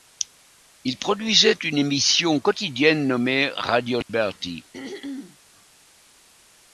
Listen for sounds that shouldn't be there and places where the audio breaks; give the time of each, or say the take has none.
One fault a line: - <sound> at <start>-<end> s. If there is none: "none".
- dropout at 4.0-4.1 s
- throat clearing at 4.7-5.4 s